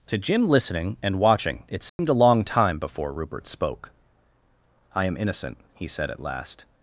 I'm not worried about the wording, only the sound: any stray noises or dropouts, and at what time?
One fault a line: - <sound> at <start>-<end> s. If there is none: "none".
- dropout at 1.9-2.0 s